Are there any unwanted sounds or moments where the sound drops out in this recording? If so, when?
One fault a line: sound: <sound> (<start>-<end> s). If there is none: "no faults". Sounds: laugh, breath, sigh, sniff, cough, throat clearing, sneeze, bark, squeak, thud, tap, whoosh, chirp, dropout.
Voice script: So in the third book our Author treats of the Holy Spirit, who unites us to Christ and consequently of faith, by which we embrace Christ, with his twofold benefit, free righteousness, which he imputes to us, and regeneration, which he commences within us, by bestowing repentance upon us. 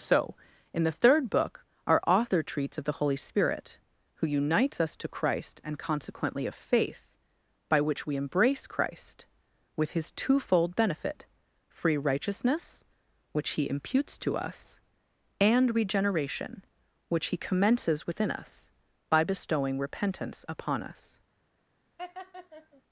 sound: laugh (22.0-22.8 s)